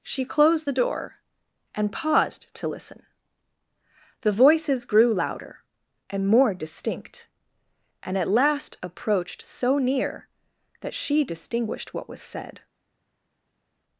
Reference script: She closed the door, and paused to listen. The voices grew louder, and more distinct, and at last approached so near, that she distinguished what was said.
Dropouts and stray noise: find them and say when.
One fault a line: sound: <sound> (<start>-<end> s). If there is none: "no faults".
no faults